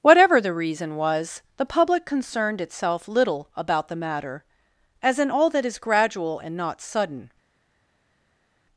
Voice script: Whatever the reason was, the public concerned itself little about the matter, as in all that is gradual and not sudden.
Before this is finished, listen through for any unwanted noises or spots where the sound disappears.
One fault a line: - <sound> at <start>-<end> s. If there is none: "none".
none